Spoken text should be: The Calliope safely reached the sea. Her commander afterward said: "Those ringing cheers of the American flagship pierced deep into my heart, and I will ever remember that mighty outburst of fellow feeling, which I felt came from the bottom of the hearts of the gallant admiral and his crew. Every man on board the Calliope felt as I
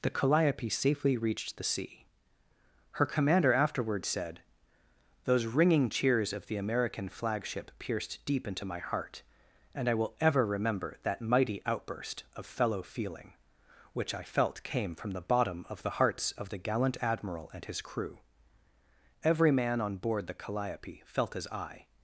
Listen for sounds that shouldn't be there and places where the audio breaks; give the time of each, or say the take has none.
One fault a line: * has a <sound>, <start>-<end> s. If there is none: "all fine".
all fine